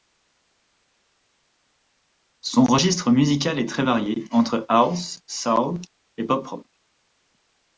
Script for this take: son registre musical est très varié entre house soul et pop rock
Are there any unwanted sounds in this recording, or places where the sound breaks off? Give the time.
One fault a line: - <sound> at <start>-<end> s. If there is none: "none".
none